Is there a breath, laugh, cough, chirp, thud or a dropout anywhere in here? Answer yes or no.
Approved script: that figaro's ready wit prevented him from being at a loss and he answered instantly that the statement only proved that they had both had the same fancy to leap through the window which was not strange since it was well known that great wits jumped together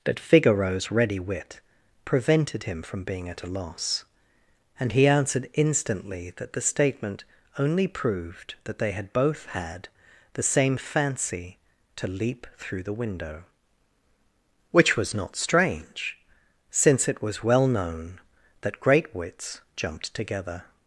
no